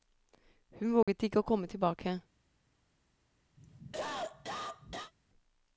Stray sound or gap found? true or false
true